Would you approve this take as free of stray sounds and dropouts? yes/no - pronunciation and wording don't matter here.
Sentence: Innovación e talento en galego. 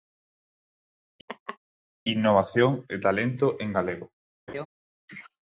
no